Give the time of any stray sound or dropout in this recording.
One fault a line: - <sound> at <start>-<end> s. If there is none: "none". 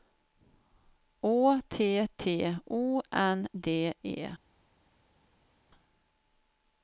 none